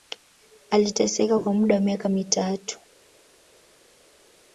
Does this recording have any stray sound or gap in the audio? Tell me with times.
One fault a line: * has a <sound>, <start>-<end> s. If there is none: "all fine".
all fine